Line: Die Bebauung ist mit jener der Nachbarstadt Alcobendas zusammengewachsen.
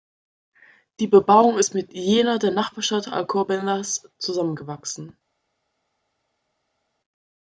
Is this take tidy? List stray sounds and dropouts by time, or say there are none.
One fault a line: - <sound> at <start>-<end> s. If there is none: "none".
none